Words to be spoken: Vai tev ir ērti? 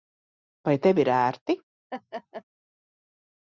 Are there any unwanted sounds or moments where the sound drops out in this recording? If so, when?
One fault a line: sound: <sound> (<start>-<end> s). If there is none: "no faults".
sound: laugh (1.9-2.4 s)